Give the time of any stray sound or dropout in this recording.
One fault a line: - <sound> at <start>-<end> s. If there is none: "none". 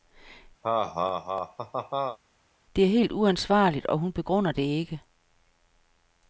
- laugh at 0.6-2.2 s